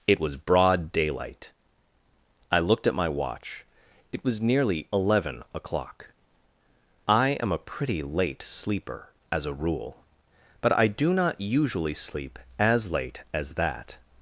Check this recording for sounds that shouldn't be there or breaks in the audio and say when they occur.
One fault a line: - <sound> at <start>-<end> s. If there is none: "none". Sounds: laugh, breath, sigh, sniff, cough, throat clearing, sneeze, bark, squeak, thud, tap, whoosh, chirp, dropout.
none